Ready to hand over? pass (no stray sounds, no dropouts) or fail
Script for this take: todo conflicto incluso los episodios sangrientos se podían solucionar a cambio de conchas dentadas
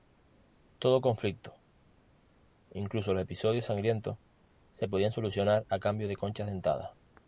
pass